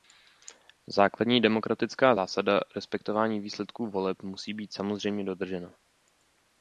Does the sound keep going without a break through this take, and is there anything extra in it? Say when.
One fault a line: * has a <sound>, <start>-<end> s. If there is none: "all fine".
all fine